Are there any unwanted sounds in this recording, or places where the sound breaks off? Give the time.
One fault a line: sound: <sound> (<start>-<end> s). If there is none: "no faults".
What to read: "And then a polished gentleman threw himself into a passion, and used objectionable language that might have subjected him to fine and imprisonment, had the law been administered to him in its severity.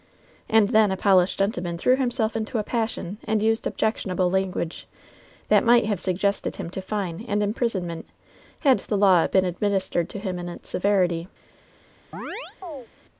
sound: chirp (12.1-12.9 s)